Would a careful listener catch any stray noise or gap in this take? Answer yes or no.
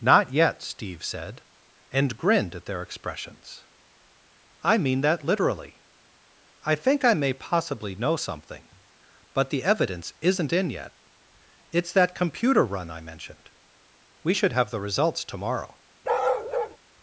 yes